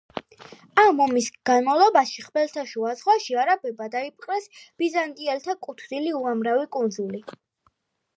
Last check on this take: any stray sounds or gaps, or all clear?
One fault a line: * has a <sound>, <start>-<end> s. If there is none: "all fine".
all fine